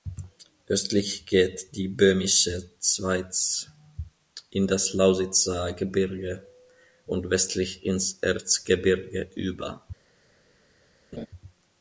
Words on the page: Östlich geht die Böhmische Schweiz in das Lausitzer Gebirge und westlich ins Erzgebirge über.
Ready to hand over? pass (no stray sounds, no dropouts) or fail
fail